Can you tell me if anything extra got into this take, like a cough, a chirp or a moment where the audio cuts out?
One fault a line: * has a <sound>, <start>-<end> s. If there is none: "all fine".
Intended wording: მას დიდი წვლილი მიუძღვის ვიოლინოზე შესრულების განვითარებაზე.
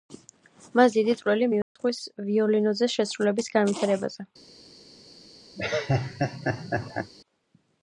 * has a dropout, 1.6-1.8 s
* has a laugh, 5.6-7.1 s